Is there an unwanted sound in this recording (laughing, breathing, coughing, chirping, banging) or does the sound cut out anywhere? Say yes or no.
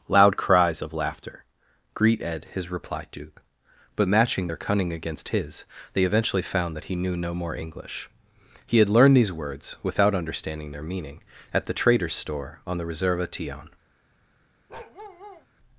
yes